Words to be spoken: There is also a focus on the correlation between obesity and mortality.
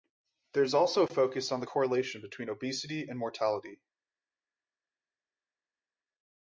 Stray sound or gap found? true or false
false